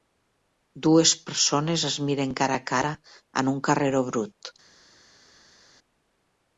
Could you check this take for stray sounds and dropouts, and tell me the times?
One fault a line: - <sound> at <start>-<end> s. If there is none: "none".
none